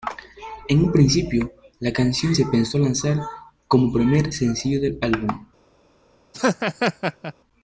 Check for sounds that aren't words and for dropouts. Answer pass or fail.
fail